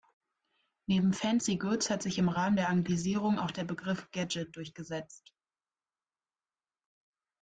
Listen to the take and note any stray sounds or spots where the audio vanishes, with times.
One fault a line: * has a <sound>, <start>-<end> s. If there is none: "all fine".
all fine